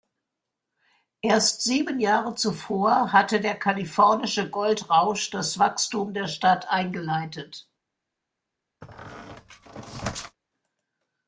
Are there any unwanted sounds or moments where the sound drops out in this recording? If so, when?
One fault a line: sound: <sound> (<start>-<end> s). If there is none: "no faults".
sound: squeak (8.8-10.4 s)